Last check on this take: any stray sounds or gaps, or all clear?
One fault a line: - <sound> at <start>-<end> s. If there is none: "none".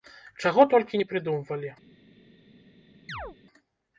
- chirp at 3.1-3.4 s